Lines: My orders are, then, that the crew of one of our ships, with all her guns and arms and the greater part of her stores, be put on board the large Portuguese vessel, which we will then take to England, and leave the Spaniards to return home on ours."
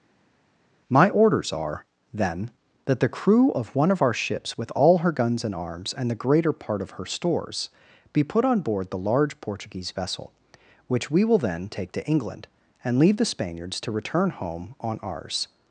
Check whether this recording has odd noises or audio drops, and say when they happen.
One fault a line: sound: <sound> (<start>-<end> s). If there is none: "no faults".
no faults